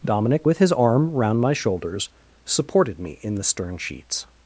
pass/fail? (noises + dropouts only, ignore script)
pass